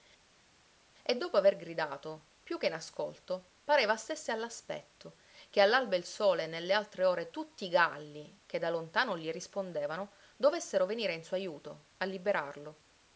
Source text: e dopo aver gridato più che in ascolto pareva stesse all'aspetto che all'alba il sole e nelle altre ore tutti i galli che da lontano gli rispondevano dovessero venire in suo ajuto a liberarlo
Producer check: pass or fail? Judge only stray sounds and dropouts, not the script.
pass